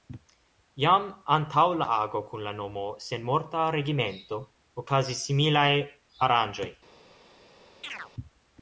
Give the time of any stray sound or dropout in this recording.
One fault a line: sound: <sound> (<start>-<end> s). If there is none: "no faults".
sound: chirp (7.8-8.1 s)